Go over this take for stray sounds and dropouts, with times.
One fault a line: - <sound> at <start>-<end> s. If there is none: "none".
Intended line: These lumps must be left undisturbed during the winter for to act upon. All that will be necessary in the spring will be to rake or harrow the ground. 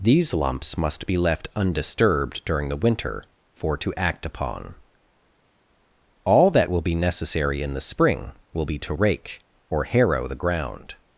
none